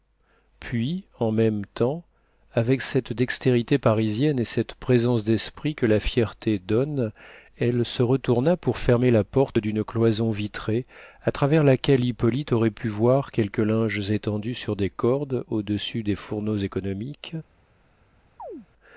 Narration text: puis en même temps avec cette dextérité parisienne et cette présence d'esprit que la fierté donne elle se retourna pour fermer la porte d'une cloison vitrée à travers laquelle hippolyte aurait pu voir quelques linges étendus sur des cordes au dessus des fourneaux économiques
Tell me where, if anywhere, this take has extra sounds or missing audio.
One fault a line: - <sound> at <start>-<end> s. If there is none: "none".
- chirp at 18.4-18.7 s